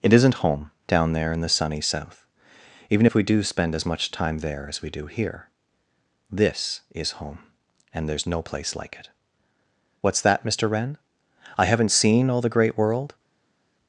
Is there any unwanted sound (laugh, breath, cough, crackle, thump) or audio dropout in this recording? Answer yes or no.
no